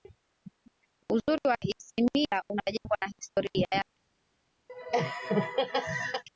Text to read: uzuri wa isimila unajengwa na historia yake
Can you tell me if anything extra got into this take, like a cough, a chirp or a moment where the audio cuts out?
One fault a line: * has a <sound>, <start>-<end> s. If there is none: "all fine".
* has a laugh, 4.7-6.2 s